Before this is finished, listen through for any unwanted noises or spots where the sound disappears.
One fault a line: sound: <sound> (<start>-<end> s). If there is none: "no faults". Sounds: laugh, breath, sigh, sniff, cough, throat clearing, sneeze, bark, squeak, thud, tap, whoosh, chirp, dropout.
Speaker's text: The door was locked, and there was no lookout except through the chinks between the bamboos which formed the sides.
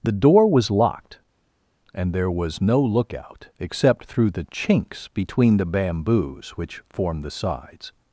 no faults